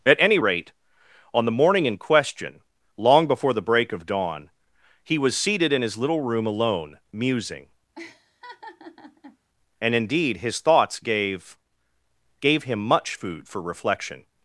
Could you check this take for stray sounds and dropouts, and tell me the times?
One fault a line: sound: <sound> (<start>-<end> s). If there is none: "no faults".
sound: laugh (8.0-9.4 s)